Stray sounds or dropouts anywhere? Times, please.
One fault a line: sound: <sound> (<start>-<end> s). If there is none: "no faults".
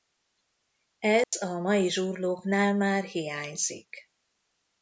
sound: dropout (1.2-1.3 s)